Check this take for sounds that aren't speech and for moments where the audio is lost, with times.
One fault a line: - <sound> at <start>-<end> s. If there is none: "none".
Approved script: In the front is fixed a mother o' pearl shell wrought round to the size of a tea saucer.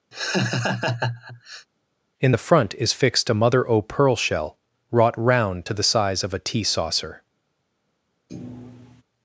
- laugh at 0.1-1.7 s
- thud at 8.3-9.0 s